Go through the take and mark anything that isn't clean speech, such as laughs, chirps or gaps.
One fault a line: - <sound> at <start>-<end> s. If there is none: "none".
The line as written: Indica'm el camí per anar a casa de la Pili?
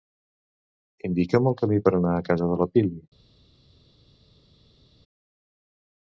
none